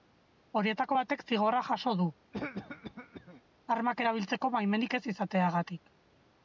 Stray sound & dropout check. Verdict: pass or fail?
fail